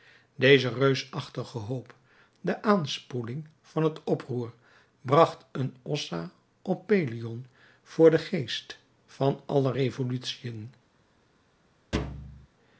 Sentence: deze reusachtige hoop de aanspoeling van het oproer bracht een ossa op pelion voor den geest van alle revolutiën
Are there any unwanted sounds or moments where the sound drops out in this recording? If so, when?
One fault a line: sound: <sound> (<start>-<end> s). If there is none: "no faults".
sound: thud (11.9-12.5 s)